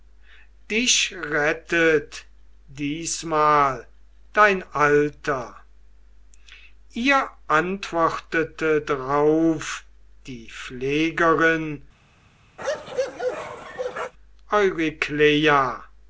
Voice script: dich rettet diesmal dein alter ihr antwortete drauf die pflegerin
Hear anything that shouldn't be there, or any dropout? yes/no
yes